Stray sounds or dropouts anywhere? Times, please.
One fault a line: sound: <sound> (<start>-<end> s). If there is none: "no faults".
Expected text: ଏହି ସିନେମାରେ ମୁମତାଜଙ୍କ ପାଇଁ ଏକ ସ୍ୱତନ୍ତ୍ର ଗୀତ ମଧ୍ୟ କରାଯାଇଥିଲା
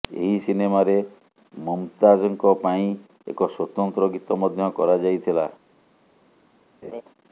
sound: laugh (6.8-7.0 s)